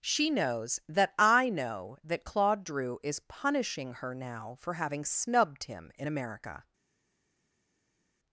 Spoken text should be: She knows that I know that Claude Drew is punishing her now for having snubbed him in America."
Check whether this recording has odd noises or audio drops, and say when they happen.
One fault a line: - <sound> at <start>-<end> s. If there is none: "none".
none